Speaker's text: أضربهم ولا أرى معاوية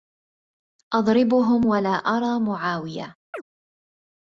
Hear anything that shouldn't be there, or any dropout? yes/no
yes